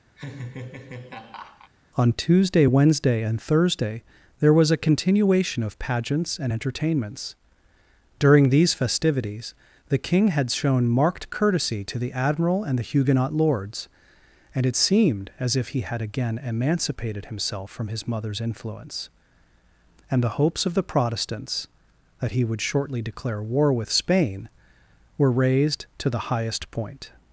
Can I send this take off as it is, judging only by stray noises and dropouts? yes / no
no